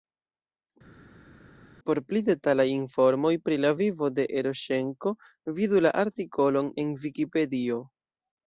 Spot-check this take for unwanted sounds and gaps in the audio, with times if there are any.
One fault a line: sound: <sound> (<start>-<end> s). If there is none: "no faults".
no faults